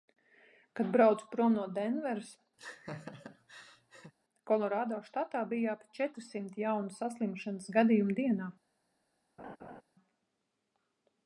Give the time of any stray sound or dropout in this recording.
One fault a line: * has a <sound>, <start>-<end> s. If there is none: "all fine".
* has a laugh, 2.6-4.1 s
* has a laugh, 9.4-9.8 s